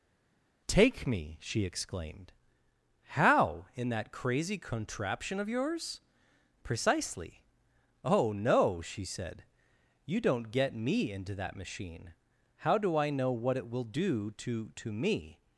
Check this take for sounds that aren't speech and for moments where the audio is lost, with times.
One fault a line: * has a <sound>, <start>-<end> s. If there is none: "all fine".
all fine